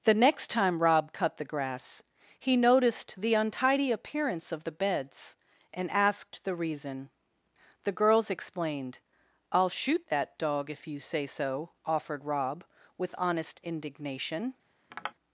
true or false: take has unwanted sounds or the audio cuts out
true